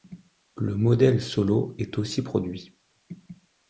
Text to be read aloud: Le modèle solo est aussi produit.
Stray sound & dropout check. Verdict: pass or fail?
pass